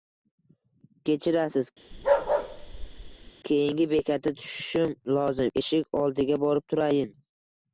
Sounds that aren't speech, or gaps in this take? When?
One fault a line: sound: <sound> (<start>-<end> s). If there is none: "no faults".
sound: bark (1.9-3.3 s)